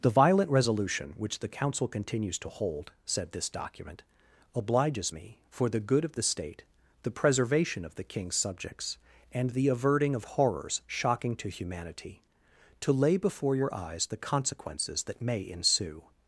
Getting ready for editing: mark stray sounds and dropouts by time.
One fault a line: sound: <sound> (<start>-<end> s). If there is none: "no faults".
no faults